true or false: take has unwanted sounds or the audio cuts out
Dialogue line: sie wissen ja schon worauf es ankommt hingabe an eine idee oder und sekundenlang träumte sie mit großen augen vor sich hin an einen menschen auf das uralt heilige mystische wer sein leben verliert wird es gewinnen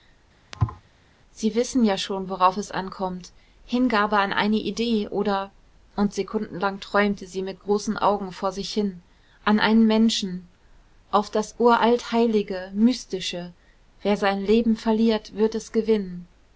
true